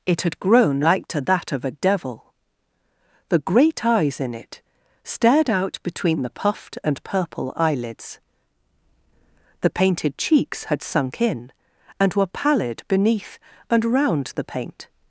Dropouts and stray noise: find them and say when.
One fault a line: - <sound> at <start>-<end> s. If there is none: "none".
none